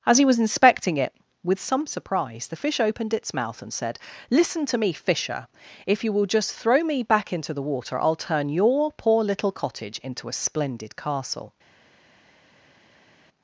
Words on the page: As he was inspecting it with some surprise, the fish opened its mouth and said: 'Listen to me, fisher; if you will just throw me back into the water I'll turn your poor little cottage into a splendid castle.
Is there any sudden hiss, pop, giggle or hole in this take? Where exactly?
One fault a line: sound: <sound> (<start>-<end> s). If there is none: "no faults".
no faults